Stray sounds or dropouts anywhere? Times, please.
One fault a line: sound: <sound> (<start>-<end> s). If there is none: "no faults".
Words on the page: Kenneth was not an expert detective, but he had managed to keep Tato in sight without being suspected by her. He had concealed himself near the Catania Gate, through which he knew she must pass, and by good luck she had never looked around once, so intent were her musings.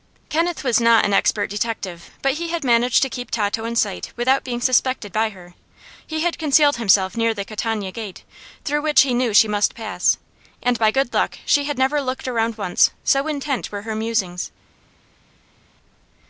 no faults